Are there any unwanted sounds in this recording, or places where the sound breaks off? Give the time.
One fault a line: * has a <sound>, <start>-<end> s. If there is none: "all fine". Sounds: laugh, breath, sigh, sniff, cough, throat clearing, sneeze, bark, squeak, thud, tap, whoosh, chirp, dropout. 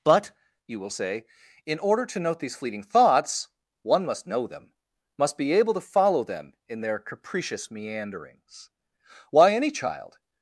all fine